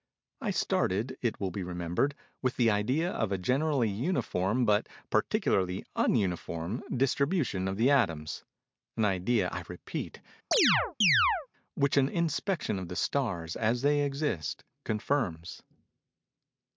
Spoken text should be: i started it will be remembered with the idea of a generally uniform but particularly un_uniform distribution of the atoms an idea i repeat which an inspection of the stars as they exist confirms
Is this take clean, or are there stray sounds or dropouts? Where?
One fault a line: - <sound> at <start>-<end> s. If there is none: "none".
- chirp at 10.5-11.5 s